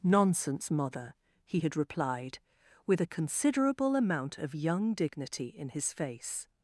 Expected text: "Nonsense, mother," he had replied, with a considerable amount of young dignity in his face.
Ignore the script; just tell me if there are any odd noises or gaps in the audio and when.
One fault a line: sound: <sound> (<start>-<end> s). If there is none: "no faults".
no faults